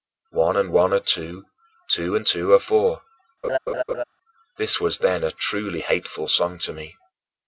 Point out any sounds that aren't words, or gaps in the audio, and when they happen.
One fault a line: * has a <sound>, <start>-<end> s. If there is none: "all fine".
* has a laugh, 3.4-4.0 s